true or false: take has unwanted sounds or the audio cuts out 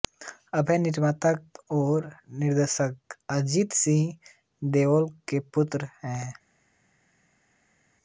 false